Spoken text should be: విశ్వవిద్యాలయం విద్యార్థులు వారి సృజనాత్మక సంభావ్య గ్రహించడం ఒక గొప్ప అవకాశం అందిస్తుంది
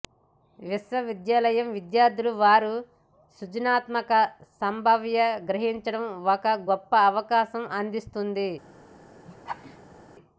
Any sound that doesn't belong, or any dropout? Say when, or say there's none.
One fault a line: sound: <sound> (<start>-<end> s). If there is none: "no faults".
sound: laugh (9.2-10.0 s)